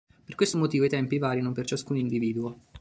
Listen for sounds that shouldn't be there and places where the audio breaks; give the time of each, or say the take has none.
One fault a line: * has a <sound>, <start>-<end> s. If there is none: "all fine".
all fine